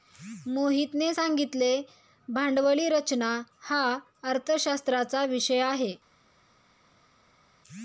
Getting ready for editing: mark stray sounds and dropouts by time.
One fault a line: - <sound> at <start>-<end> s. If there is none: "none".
none